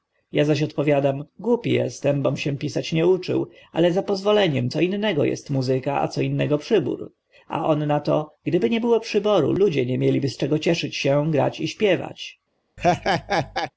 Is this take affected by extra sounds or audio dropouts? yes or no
yes